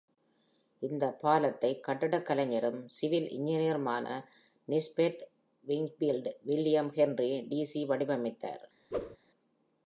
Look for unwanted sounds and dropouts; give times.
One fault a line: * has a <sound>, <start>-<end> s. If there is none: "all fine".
* has a whoosh, 8.9-9.2 s